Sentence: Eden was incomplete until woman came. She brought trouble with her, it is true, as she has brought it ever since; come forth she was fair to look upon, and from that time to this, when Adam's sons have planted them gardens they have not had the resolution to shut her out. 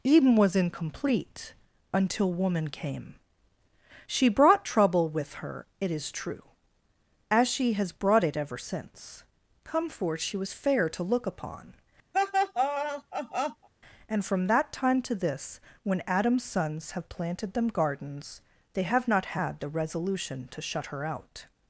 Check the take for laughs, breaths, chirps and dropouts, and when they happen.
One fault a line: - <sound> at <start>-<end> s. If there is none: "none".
- laugh at 12.1-13.7 s